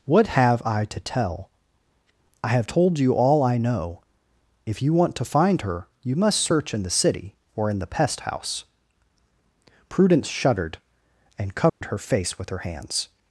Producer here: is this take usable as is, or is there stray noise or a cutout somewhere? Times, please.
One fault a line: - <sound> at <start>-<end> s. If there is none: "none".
- dropout at 11.7-11.8 s